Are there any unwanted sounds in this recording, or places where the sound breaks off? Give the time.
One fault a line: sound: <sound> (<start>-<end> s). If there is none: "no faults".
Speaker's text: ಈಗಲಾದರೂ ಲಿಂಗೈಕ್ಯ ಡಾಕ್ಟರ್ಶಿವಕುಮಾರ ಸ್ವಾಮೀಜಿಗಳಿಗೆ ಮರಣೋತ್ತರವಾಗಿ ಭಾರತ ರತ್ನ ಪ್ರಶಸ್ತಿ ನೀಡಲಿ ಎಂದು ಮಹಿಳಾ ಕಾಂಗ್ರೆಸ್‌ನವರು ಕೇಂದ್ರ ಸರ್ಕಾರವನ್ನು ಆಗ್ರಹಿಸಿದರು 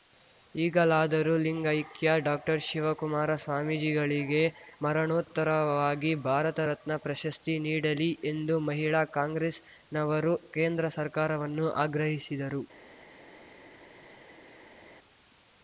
no faults